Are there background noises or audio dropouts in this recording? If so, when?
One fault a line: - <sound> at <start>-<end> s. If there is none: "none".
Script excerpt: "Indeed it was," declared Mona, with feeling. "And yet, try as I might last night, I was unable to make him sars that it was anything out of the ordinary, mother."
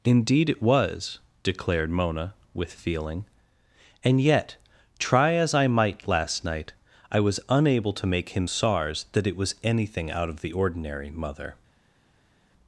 none